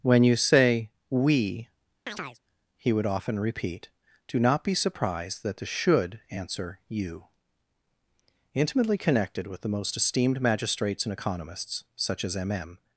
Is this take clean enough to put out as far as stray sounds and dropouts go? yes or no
no